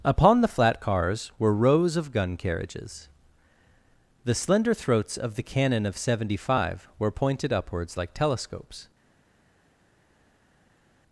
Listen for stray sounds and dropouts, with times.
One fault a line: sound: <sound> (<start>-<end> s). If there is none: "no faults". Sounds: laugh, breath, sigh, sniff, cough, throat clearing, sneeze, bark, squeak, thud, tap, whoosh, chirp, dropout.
no faults